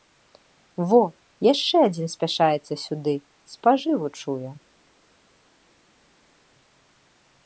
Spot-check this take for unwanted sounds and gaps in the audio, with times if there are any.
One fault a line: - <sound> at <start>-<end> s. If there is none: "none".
none